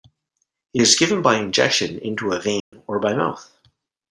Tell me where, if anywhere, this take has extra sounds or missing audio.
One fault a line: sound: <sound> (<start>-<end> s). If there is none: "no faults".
sound: dropout (2.6-2.7 s)